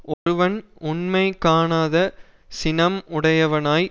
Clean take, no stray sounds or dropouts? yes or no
no